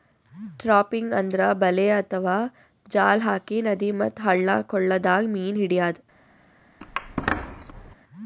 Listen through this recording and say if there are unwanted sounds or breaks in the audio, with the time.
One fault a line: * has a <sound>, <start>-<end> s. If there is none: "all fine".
* has a squeak, 6.8-8.0 s